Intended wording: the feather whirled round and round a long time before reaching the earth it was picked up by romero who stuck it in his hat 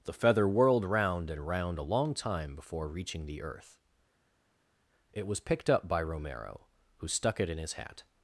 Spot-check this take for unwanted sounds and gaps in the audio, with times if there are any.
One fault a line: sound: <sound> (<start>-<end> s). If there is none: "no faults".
no faults